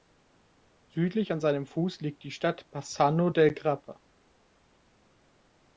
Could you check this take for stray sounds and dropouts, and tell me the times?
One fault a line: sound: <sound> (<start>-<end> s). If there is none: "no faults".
no faults